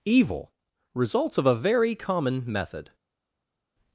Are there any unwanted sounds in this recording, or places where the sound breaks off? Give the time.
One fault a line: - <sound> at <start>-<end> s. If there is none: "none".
none